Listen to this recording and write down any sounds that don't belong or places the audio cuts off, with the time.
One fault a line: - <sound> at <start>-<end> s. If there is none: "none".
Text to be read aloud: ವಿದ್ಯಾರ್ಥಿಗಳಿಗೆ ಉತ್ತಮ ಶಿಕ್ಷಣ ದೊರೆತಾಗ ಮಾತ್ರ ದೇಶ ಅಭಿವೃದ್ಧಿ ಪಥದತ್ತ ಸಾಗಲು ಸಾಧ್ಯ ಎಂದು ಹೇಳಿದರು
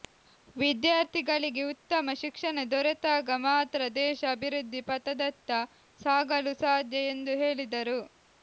none